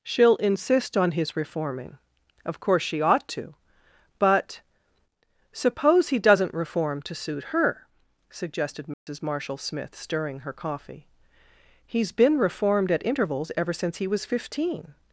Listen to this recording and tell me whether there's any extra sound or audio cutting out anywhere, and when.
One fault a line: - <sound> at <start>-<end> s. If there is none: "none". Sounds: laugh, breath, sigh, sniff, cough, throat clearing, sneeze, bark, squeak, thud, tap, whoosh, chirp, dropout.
- dropout at 8.9-9.1 s